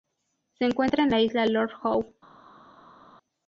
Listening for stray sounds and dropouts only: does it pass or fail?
pass